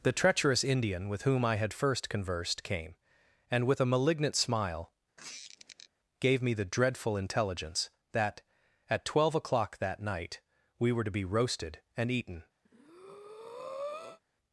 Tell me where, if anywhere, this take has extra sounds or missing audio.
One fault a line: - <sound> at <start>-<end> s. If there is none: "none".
- squeak at 5.2-5.9 s
- breath at 12.6-14.2 s